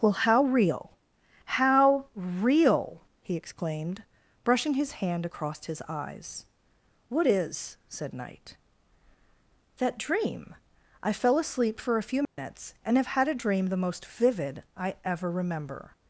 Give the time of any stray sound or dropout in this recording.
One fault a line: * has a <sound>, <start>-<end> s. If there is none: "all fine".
* has a dropout, 12.2-12.4 s